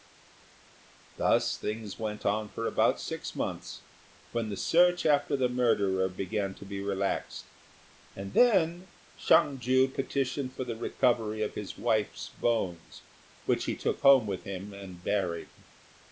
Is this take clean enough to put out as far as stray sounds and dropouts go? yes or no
yes